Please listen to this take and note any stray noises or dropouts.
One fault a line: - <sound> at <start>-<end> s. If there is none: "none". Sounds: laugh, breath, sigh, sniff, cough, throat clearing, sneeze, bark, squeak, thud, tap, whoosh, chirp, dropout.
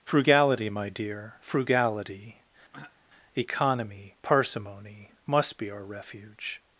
- throat clearing at 2.7-3.0 s